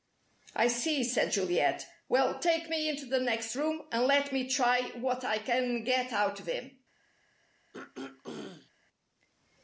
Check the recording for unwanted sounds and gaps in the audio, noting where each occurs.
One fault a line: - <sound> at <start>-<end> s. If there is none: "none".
- throat clearing at 7.7-8.7 s